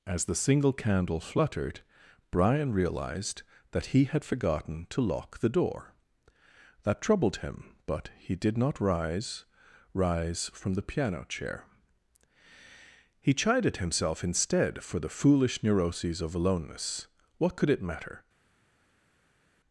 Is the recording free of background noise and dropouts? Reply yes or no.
yes